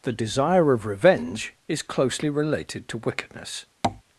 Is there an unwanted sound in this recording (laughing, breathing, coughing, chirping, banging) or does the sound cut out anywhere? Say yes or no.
yes